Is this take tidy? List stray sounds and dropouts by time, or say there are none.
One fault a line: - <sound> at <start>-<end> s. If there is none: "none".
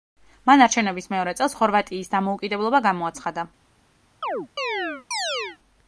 - chirp at 4.2-5.6 s